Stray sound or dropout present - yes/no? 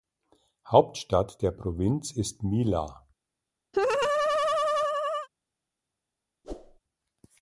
yes